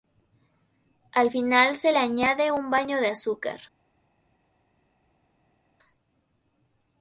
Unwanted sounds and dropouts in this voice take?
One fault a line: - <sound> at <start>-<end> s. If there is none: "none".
none